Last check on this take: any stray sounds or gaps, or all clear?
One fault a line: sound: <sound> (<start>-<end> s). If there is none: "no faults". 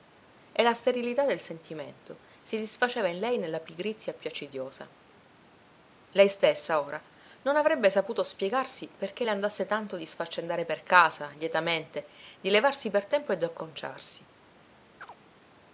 sound: chirp (15.0-15.2 s)